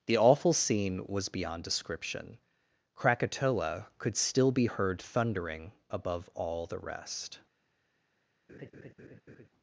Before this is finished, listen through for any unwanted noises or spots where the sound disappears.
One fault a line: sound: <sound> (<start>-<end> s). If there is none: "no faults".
sound: laugh (8.5-9.5 s)